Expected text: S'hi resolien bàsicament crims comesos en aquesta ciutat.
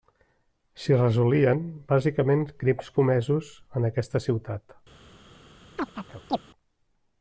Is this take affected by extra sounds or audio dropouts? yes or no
yes